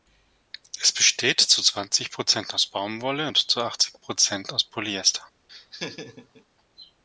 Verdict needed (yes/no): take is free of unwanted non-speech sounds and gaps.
no